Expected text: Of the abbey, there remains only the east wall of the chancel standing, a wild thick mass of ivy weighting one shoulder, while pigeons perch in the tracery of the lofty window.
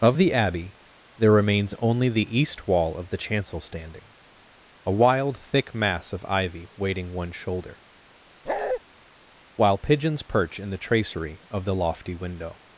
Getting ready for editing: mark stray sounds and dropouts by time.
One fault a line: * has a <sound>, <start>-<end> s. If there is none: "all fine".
* has a bark, 8.5-8.8 s